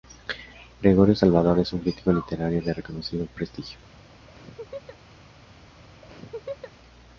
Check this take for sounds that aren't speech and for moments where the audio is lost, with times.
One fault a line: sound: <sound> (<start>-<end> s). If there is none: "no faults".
sound: laugh (4.3-5.0 s)
sound: laugh (6.0-6.7 s)